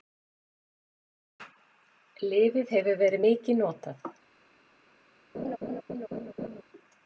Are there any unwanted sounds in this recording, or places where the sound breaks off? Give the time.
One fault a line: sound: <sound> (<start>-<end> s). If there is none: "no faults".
sound: laugh (5.3-6.6 s)